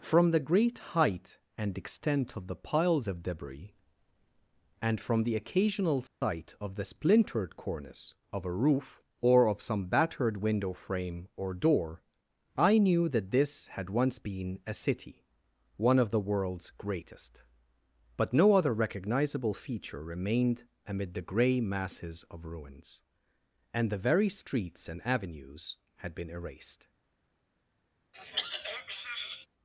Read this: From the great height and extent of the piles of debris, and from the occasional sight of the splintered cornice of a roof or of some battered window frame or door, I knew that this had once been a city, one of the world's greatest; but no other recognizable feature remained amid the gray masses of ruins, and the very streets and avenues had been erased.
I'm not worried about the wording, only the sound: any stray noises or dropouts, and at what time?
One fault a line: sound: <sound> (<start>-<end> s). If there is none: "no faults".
sound: dropout (6.1-6.2 s)
sound: throat clearing (28.1-29.5 s)